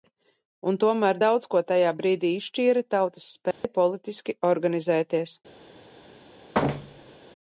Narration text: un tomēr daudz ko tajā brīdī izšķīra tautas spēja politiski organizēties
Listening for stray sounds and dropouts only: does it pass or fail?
fail